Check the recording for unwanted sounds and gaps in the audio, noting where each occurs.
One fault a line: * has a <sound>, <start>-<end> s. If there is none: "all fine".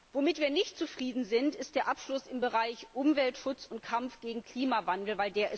all fine